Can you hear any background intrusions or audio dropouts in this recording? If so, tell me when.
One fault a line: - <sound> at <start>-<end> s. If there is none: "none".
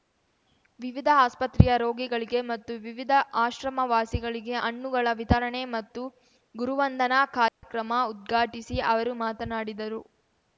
- dropout at 7.5-7.6 s